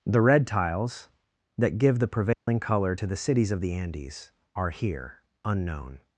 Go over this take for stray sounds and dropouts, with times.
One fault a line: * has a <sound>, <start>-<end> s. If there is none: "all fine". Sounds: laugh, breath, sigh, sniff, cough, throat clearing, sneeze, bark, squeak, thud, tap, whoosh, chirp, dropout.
* has a dropout, 2.3-2.5 s